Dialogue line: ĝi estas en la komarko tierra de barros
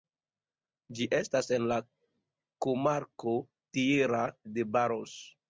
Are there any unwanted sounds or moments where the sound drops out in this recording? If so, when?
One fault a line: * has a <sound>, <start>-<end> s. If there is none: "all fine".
all fine